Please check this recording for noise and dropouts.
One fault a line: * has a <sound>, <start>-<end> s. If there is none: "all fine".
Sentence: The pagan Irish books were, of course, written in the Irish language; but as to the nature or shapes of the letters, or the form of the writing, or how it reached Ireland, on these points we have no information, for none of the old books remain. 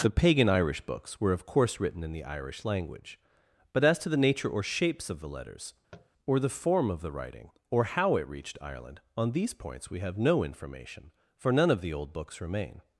* has a tap, 5.9-6.1 s